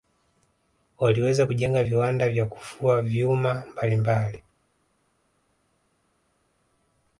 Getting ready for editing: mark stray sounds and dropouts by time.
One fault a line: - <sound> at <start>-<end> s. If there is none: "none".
none